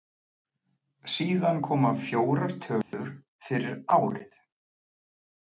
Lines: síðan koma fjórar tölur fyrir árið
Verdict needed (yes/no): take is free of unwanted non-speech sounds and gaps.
no